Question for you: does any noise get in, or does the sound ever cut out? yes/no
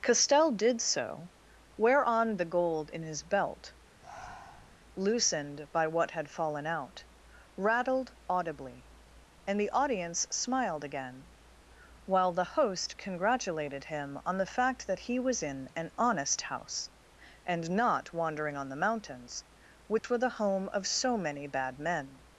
yes